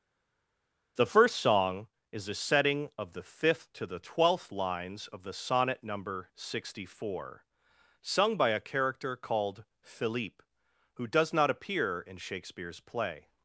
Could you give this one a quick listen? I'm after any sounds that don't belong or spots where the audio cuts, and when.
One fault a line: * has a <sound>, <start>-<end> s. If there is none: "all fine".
all fine